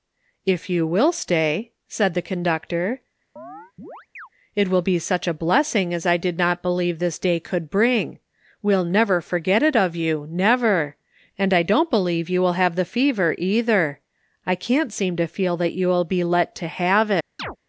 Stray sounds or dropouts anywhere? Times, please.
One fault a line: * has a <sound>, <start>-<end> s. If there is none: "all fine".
* has a chirp, 3.4-4.3 s
* has a chirp, 17.4-17.6 s